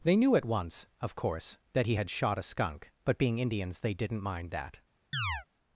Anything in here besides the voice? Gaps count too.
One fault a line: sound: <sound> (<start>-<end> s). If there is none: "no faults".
sound: chirp (5.1-5.5 s)